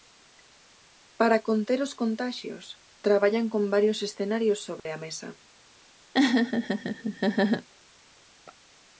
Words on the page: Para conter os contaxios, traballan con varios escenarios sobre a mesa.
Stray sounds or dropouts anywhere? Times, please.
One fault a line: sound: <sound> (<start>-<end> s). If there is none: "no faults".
sound: dropout (4.8-4.9 s)
sound: laugh (6.1-7.7 s)